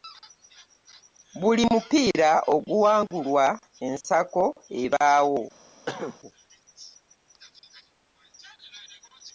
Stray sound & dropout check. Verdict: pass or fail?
fail